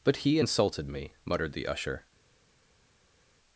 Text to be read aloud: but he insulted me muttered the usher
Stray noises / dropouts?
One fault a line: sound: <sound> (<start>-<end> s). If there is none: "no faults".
no faults